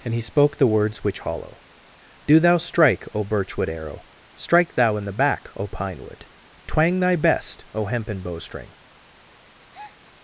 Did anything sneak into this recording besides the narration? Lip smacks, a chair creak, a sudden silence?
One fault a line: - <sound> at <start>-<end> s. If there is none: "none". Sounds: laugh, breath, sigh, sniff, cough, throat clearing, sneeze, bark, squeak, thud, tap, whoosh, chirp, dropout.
- breath at 9.7-10.0 s